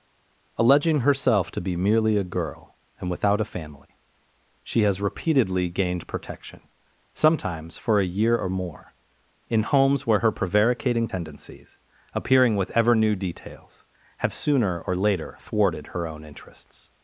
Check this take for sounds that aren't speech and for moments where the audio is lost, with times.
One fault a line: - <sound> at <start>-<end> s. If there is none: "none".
none